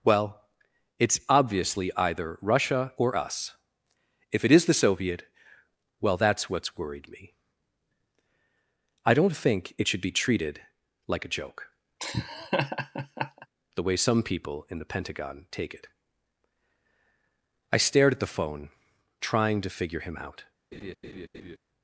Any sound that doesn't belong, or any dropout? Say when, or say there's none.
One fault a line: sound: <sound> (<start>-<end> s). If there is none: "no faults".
sound: laugh (12.0-13.5 s)
sound: laugh (20.7-21.6 s)